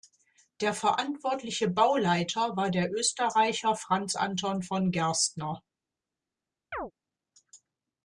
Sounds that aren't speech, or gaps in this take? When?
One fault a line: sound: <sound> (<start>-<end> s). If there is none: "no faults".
sound: chirp (6.7-6.9 s)